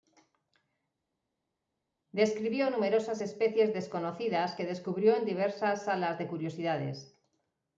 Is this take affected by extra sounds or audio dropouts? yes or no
no